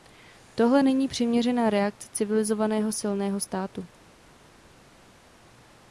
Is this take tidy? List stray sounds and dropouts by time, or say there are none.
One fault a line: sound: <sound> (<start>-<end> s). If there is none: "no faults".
no faults